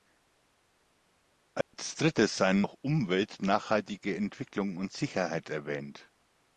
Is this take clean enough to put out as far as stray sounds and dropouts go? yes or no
no